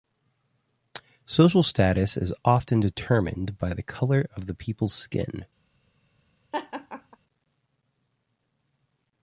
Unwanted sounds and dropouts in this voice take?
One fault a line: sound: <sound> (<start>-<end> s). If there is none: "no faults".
sound: laugh (6.5-7.2 s)